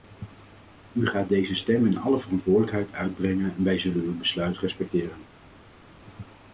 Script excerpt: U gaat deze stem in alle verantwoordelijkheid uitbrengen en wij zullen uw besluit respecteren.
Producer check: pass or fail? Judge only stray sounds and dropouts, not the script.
pass